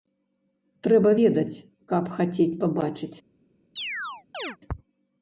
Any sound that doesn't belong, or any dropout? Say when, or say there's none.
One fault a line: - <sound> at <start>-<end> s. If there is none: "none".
- chirp at 3.8-4.6 s